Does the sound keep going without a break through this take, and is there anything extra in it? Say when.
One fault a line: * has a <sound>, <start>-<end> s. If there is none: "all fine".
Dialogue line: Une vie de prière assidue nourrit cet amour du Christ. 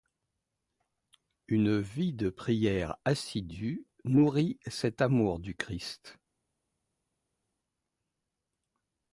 all fine